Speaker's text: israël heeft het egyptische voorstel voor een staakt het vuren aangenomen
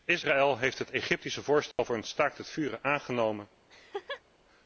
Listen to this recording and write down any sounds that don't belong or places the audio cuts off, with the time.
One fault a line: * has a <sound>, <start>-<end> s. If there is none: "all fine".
* has a dropout, 1.7-1.8 s
* has a laugh, 3.7-4.2 s